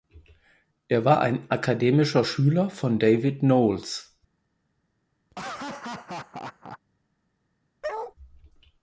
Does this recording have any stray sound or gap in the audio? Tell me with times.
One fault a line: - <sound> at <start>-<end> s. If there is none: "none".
- laugh at 5.3-6.8 s
- bark at 7.8-8.1 s